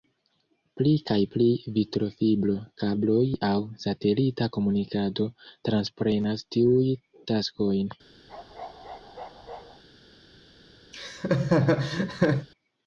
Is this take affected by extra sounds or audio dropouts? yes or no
yes